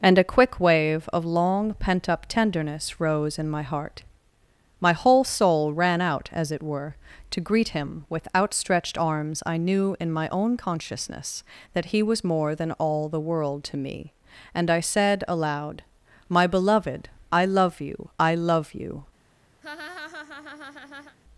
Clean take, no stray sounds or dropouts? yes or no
no